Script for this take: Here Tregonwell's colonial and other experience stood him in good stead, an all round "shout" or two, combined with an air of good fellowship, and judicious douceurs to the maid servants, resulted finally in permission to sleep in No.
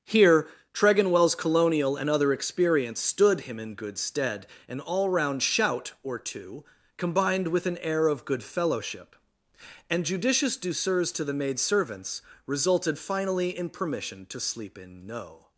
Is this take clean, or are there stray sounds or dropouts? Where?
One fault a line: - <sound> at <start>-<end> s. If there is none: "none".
none